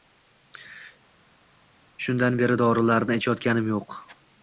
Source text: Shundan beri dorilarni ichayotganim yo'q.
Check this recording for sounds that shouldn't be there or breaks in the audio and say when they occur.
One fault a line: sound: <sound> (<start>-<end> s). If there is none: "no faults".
no faults